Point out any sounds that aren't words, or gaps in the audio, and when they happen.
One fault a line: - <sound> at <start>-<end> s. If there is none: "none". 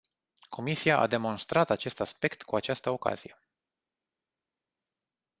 none